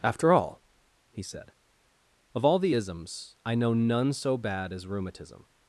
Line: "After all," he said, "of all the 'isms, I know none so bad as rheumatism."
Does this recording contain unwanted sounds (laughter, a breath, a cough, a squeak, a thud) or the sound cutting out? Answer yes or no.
no